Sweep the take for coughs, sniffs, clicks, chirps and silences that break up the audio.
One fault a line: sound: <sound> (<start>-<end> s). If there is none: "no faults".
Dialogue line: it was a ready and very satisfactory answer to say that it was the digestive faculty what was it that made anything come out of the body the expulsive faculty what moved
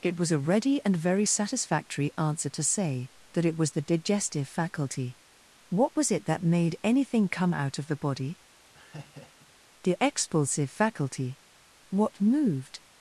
sound: laugh (8.7-9.5 s)